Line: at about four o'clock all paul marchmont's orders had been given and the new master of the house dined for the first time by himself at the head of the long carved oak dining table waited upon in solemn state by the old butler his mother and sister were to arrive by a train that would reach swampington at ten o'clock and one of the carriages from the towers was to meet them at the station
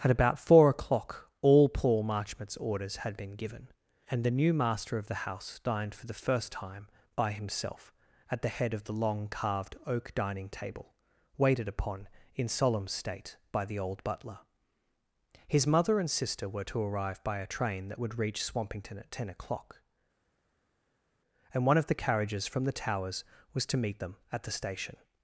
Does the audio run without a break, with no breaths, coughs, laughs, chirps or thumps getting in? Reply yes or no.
yes